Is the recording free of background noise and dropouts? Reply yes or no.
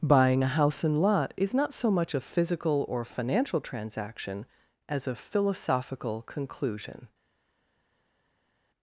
yes